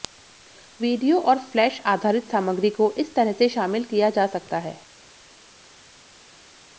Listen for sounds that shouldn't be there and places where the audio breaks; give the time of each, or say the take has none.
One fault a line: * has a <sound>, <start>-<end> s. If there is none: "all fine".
all fine